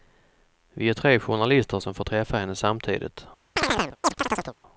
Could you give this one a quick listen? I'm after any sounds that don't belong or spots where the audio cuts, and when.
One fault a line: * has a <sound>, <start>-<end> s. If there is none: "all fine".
* has a chirp, 3.6-4.6 s